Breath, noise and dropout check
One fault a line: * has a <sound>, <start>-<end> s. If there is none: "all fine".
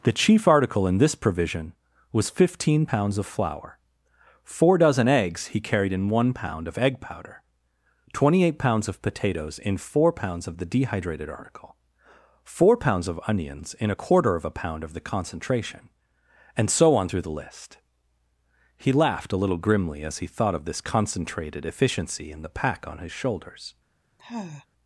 * has a sigh, 24.2-24.7 s